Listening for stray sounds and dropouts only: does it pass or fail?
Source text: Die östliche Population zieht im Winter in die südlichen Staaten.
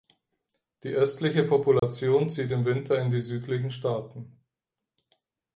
fail